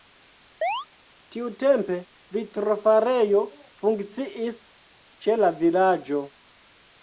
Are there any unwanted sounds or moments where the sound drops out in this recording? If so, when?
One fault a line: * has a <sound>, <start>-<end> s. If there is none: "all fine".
* has a chirp, 0.6-0.9 s